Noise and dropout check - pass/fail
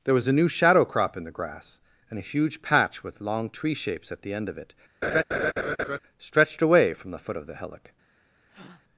fail